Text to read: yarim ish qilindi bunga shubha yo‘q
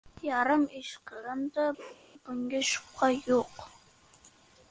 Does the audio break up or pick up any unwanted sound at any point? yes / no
yes